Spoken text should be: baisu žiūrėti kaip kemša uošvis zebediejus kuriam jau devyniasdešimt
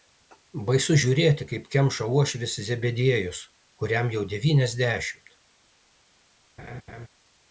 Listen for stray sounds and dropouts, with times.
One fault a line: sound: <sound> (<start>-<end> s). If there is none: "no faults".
sound: laugh (6.6-7.1 s)